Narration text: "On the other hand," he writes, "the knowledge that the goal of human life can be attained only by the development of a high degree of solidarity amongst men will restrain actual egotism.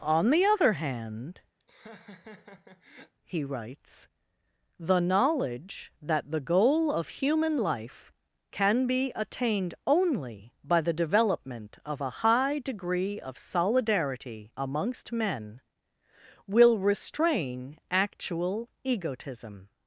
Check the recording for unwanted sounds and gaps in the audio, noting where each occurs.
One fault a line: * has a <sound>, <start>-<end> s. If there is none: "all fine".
* has a laugh, 1.6-3.1 s